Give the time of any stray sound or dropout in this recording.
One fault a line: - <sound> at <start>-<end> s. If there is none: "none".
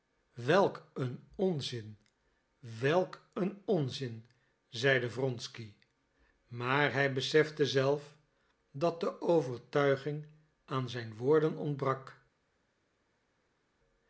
none